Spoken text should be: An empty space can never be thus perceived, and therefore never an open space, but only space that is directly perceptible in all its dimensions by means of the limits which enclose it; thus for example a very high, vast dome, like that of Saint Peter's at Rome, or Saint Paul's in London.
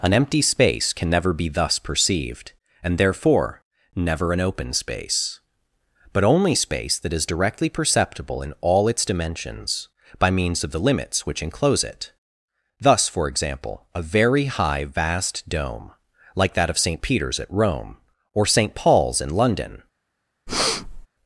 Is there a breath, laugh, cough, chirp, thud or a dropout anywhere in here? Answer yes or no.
yes